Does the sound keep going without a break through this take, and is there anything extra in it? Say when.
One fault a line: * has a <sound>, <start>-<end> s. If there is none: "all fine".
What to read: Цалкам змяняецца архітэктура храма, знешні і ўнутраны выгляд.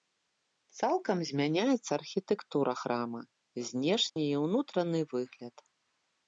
* has a dropout, 4.1-4.2 s